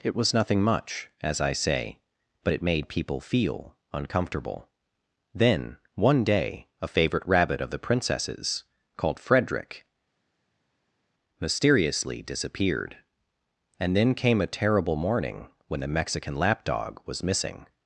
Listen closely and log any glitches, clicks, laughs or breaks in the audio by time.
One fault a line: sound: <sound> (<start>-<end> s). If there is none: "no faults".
no faults